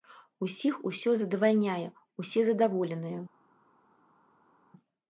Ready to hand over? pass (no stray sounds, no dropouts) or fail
pass